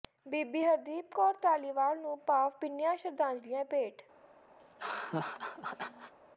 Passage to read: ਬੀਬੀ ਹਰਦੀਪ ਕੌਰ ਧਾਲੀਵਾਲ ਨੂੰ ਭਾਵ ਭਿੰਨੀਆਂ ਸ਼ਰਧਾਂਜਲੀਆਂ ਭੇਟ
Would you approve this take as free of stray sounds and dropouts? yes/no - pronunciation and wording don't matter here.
no